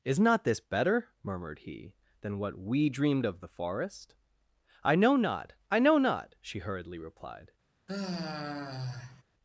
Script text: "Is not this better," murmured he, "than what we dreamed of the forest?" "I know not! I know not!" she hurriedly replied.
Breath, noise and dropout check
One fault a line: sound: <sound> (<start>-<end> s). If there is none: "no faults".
sound: sigh (7.9-9.2 s)